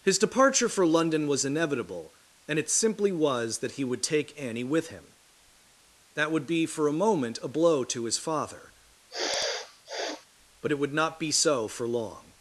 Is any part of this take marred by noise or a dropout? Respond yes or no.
yes